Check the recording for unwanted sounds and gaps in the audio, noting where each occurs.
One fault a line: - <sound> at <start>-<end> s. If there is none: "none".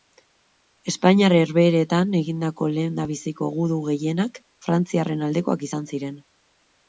none